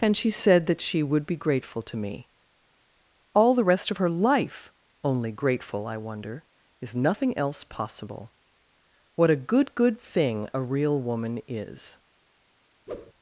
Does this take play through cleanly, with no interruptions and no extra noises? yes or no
no